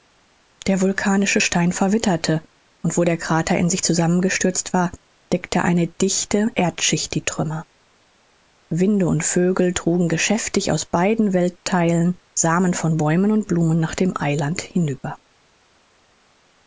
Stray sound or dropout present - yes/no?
no